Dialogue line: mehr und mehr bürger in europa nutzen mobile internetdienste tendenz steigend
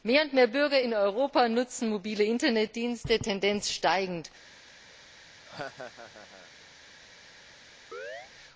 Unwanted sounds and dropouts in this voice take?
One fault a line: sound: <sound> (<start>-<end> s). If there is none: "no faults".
sound: laugh (5.4-6.5 s)
sound: chirp (7.9-8.3 s)